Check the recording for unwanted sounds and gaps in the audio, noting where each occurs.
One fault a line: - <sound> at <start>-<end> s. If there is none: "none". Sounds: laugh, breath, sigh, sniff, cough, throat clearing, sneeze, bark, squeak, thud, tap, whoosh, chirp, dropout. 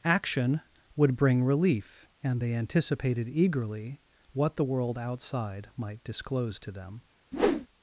- whoosh at 7.3-7.7 s